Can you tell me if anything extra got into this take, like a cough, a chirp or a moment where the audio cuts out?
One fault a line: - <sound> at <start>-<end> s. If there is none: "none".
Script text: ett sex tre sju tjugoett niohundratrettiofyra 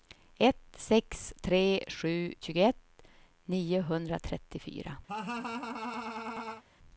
- laugh at 5.1-6.6 s